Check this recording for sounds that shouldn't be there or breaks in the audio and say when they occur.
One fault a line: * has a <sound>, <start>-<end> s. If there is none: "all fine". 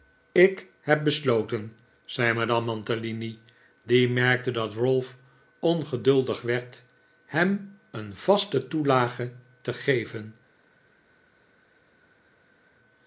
all fine